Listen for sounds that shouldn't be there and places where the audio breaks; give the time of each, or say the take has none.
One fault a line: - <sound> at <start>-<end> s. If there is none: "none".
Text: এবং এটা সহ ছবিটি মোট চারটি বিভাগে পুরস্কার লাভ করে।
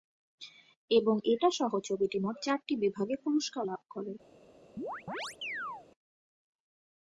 - chirp at 4.8-5.9 s